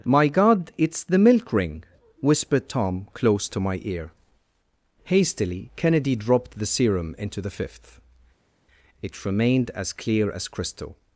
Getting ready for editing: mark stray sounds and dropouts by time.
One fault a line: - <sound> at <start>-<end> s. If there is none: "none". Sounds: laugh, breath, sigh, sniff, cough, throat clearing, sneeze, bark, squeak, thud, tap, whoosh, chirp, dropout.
none